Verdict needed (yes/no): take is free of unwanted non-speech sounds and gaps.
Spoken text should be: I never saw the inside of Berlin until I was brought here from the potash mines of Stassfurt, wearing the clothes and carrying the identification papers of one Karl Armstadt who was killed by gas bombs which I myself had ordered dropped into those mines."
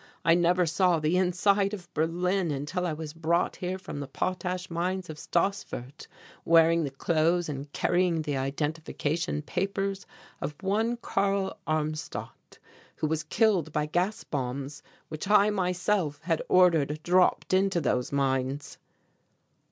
yes